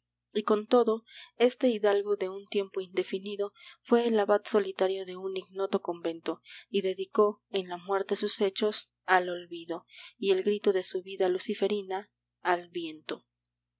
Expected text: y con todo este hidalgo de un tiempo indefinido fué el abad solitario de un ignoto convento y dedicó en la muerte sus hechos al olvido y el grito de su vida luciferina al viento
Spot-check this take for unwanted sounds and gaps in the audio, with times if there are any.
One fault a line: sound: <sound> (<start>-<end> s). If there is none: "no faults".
no faults